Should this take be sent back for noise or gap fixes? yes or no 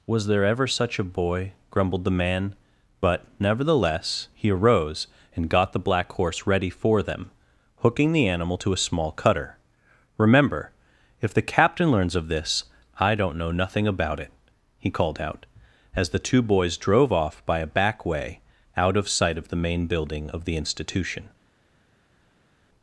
no